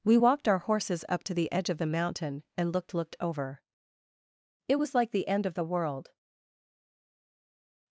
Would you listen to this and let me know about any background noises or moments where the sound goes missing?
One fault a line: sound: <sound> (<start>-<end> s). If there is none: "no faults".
no faults